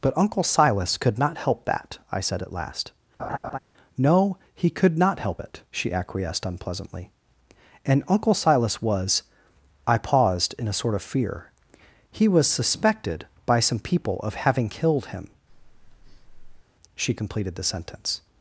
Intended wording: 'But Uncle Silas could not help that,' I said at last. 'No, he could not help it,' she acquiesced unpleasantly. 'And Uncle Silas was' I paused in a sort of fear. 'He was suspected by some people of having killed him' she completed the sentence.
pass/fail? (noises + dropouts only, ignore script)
fail